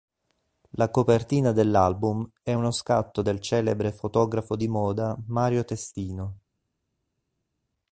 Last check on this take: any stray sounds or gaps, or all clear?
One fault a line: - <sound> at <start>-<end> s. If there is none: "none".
none